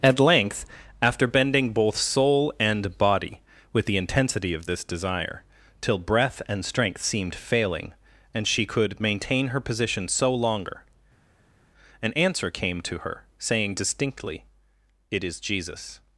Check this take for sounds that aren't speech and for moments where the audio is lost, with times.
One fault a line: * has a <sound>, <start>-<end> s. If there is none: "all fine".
all fine